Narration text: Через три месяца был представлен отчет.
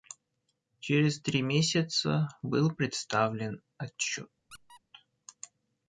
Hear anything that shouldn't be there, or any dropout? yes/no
yes